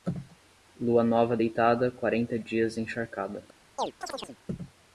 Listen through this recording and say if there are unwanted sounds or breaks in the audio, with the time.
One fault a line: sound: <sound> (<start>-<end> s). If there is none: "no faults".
sound: chirp (3.8-4.4 s)